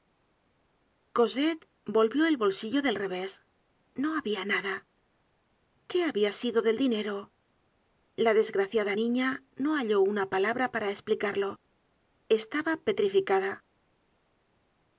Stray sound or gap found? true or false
false